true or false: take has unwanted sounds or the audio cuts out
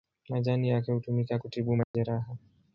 true